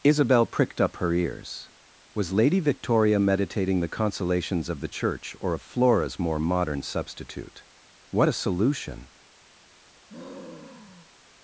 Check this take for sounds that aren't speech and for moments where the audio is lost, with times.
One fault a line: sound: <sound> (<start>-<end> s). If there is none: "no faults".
sound: sigh (10.1-11.2 s)